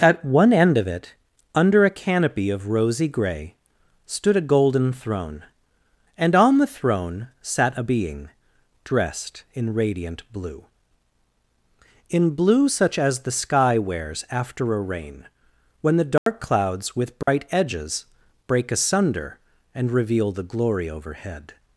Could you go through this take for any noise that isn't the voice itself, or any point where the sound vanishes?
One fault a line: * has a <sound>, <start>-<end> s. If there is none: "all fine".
* has a dropout, 16.2-16.3 s
* has a dropout, 17.2-17.3 s